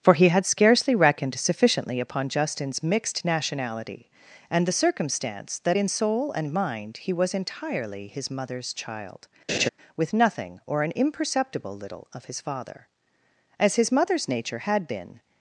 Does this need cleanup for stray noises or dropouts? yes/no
yes